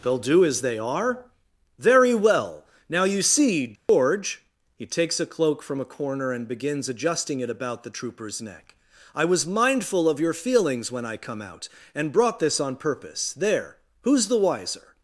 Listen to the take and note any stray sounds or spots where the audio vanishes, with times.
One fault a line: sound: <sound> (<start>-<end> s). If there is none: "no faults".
sound: dropout (3.8-3.9 s)